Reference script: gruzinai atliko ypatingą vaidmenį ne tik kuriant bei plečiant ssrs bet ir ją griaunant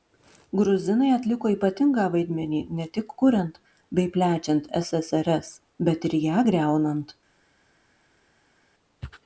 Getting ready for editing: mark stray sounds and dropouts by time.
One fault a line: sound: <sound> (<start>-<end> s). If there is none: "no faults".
no faults